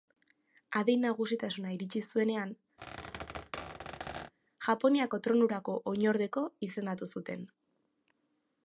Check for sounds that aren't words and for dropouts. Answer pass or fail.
fail